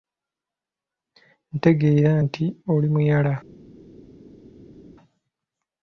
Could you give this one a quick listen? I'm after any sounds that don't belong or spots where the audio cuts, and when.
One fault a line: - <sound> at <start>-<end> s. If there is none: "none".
none